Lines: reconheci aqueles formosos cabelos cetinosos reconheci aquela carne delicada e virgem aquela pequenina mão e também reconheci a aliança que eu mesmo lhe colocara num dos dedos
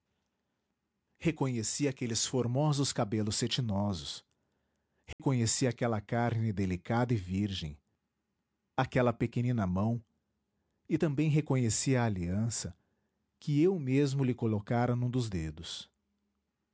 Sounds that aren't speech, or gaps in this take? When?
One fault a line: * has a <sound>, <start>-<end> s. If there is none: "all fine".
* has a dropout, 5.1-5.2 s